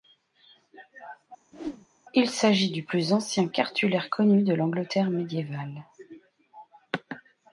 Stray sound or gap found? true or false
true